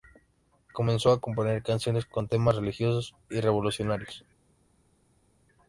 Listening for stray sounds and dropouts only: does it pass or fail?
pass